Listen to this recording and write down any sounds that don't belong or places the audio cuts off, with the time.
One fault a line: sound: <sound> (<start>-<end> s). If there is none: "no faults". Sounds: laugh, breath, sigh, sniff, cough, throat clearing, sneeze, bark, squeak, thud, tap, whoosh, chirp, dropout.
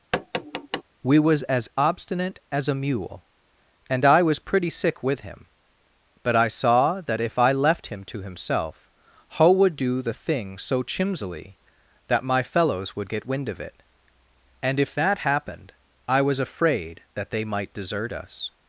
sound: tap (0.1-0.8 s)